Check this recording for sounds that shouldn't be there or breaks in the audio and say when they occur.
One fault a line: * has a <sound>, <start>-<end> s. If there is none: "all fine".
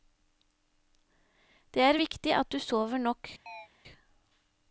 * has a chirp, 3.5-3.7 s